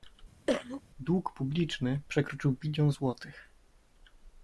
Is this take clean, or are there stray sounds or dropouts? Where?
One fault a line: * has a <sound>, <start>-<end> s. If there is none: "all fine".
* has a cough, 0.5-0.8 s